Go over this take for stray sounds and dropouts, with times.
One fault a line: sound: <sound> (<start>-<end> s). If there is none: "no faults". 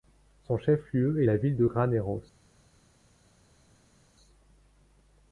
no faults